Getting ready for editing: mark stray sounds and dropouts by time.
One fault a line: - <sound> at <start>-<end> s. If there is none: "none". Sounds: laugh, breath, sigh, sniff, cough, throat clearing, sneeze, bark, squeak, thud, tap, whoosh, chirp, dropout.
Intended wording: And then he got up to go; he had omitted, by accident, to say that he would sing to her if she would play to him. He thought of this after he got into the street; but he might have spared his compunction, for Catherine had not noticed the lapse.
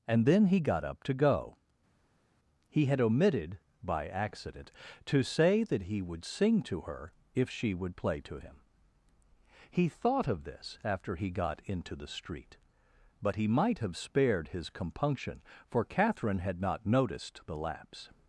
none